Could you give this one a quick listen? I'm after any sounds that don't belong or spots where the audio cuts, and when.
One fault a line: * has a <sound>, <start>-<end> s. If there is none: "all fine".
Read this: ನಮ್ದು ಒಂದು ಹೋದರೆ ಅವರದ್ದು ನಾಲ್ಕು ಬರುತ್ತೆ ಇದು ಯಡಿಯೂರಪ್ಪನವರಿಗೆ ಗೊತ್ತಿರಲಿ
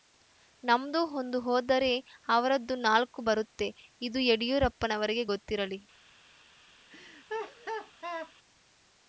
* has a laugh, 6.9-8.3 s